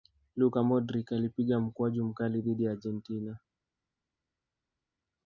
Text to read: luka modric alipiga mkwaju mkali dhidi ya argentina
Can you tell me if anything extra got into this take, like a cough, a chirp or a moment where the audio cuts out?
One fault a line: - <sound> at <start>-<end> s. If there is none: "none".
none